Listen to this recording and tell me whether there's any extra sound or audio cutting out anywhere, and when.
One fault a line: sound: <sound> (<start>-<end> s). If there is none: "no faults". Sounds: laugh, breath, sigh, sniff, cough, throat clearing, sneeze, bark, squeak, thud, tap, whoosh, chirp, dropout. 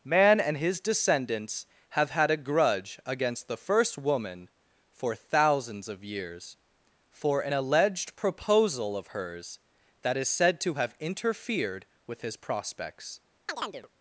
sound: chirp (13.5-13.9 s)